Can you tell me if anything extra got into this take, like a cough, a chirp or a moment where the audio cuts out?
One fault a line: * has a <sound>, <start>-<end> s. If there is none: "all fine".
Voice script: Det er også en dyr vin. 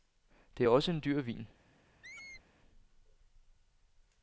* has a squeak, 2.0-2.4 s